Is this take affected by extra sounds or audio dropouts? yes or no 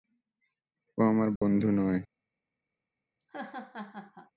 yes